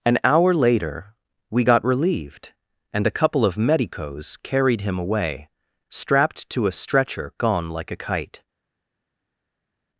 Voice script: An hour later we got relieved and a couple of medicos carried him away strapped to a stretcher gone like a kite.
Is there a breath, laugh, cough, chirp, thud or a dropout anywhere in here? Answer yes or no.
no